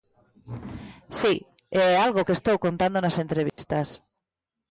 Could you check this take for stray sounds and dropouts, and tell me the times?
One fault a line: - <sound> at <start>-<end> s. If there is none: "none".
- dropout at 3.5-3.6 s